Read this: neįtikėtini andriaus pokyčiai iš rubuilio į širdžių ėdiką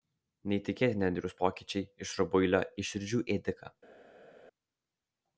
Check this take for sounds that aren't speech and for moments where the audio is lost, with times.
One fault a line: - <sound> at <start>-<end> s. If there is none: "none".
none